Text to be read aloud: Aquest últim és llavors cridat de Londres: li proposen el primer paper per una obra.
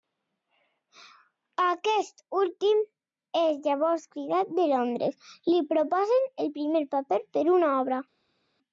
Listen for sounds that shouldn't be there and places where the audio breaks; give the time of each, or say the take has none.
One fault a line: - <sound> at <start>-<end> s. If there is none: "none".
none